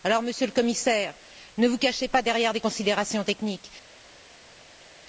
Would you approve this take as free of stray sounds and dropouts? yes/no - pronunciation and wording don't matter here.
yes